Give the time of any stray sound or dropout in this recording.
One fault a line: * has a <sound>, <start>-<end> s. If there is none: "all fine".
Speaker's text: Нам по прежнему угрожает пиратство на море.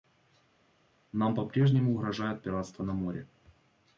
all fine